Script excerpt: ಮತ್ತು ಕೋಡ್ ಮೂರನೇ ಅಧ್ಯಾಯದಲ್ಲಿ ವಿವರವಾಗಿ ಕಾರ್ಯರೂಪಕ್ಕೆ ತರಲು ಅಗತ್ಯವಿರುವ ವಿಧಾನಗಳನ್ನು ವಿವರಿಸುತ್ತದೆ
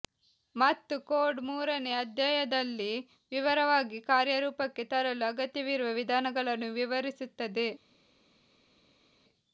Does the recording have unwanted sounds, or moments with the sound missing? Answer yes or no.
no